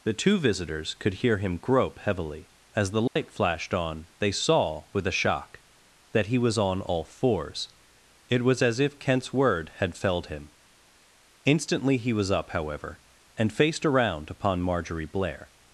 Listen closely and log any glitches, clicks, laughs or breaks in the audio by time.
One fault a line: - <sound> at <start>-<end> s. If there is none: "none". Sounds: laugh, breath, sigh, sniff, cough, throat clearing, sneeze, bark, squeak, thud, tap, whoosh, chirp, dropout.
- dropout at 3.1-3.2 s